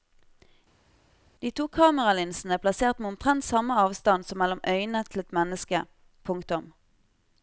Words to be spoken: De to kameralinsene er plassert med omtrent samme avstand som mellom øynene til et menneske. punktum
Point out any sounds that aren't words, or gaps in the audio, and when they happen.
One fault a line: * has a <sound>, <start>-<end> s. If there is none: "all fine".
all fine